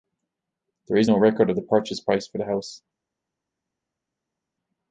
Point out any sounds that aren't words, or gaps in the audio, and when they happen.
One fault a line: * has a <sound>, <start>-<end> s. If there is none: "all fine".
all fine